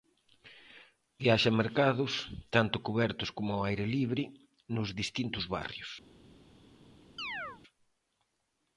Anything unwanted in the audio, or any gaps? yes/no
yes